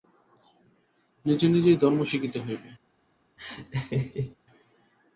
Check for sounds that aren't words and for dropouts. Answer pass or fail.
fail